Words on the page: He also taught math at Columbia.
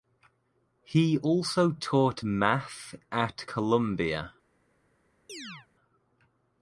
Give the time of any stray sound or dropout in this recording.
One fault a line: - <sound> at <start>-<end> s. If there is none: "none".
- chirp at 5.3-5.7 s